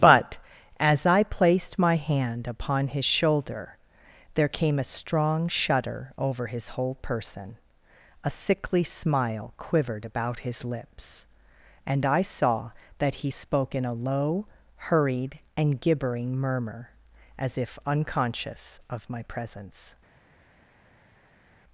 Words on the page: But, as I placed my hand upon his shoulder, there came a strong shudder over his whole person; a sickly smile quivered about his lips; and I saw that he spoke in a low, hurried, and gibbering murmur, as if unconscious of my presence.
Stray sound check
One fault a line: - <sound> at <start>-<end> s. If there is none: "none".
none